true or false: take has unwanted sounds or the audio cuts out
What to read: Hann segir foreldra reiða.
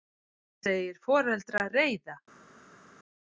false